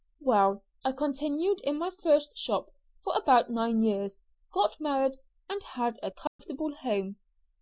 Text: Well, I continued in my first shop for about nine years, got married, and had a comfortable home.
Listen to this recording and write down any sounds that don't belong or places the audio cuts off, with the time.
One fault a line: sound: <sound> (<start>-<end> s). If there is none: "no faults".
sound: dropout (6.3-6.4 s)